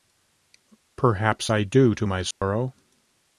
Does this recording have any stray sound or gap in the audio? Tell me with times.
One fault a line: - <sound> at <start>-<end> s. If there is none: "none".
- dropout at 2.3-2.4 s